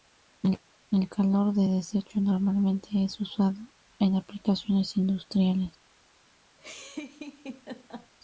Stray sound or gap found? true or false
true